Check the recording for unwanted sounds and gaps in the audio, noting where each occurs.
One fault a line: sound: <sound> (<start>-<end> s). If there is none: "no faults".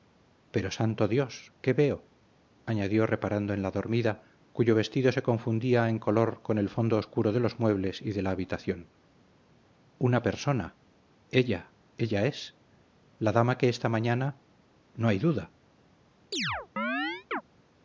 sound: chirp (16.3-17.4 s)